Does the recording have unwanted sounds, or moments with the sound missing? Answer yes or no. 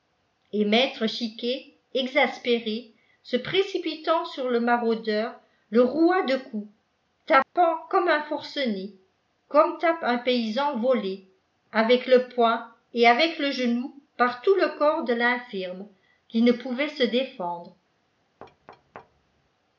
yes